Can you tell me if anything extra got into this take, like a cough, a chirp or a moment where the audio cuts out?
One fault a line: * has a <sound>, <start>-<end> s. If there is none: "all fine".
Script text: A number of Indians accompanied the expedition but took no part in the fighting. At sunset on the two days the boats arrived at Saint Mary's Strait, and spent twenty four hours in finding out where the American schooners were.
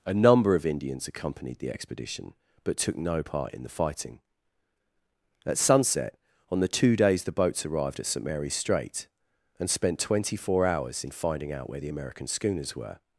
all fine